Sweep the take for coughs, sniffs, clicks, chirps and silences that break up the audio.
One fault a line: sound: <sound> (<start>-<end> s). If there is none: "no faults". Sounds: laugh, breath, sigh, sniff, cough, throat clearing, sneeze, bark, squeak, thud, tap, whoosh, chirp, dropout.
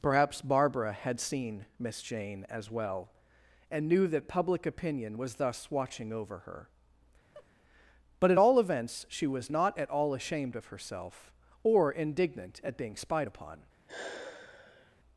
sound: laugh (7.3-7.5 s)
sound: sigh (13.9-15.0 s)